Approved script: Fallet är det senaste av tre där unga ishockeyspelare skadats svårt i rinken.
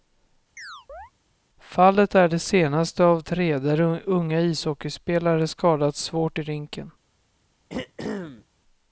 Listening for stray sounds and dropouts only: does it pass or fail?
fail